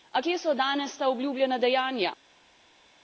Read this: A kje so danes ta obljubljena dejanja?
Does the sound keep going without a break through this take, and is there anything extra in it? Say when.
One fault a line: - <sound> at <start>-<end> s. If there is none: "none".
none